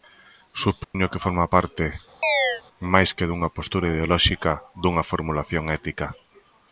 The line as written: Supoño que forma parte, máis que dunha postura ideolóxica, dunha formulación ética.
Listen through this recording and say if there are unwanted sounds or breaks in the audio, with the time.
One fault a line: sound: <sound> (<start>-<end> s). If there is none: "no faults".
sound: dropout (0.8-0.9 s)
sound: chirp (2.2-2.6 s)